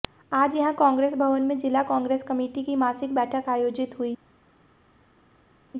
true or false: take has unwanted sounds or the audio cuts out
false